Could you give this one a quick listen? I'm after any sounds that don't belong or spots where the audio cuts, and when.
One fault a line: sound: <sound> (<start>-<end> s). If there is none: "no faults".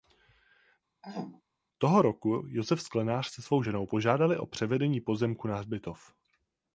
sound: throat clearing (1.0-1.4 s)